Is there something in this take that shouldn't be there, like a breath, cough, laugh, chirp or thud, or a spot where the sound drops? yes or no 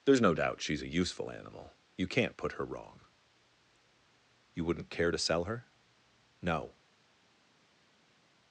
no